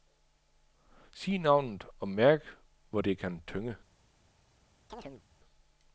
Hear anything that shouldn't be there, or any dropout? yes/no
yes